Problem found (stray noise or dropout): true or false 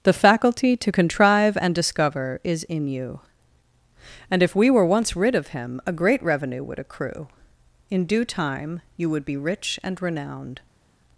false